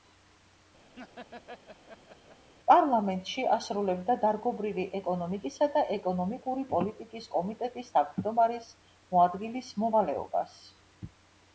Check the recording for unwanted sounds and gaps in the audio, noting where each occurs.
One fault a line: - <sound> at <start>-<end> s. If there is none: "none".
- laugh at 1.0-2.5 s